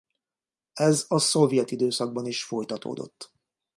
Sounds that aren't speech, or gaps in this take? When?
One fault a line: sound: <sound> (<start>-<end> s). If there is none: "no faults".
no faults